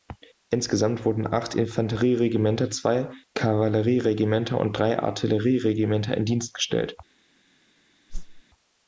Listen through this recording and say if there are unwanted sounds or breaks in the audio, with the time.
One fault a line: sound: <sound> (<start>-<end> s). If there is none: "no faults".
sound: whoosh (8.1-8.4 s)